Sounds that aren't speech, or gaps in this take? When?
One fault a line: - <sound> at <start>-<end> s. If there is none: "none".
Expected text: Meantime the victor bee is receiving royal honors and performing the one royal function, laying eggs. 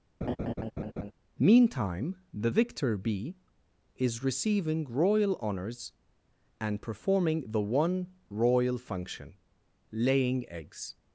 - laugh at 0.2-1.1 s